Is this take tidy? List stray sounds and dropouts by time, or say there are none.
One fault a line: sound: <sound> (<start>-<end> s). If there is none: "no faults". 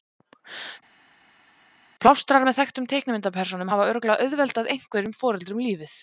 no faults